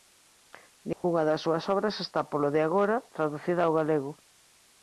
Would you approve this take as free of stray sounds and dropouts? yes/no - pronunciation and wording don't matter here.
no